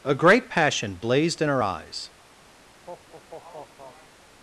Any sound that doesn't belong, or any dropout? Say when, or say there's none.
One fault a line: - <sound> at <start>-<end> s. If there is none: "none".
- laugh at 2.7-4.2 s